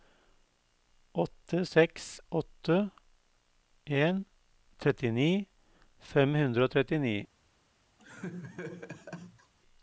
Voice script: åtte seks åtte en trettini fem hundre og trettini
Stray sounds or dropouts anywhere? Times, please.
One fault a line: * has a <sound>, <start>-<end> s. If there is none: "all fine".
* has a laugh, 8.0-9.5 s